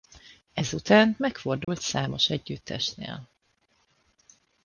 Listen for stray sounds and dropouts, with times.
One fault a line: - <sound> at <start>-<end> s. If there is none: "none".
- dropout at 1.6-1.7 s